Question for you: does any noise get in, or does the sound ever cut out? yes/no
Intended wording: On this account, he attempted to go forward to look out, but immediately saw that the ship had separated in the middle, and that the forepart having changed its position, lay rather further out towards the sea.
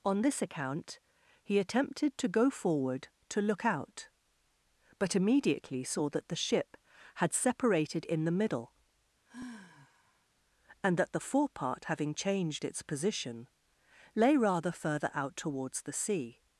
yes